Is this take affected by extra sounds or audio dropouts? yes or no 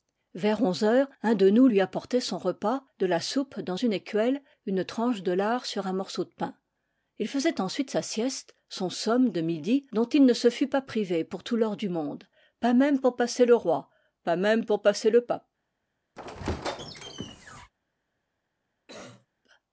yes